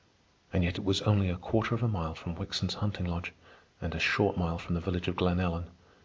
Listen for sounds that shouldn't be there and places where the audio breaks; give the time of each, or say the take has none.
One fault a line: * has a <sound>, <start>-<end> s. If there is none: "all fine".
all fine